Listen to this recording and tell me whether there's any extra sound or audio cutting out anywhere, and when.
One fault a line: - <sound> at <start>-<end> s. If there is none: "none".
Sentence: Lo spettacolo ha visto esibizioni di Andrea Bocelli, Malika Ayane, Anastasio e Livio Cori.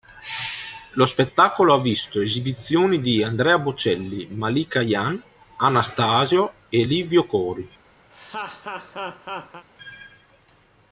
- laugh at 8.1-9.7 s